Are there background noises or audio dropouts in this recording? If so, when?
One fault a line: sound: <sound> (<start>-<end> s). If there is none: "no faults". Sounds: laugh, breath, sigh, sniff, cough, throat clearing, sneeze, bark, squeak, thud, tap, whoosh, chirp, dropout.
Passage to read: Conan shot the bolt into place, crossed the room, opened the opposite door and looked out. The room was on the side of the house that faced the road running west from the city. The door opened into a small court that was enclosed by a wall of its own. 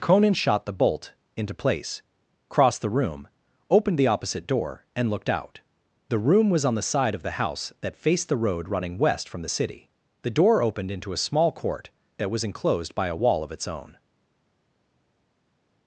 no faults